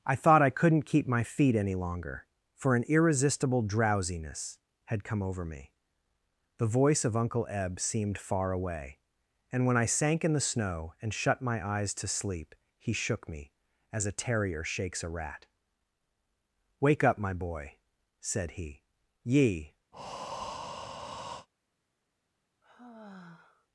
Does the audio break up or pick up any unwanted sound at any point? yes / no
yes